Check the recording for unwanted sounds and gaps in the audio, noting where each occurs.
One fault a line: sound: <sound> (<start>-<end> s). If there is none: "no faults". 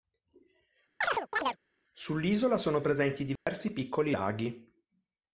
sound: chirp (1.0-1.6 s)
sound: dropout (3.4-3.5 s)